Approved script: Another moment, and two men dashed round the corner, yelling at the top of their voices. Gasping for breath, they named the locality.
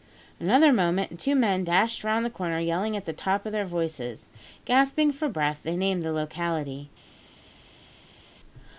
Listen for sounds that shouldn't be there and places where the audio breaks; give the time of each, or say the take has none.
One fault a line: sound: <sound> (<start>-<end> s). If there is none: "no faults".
no faults